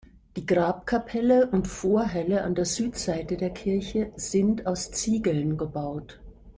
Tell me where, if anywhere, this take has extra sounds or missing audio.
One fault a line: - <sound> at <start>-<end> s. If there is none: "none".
none